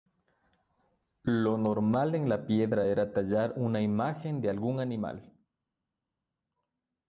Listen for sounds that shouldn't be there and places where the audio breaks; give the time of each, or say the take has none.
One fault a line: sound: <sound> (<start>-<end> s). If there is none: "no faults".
no faults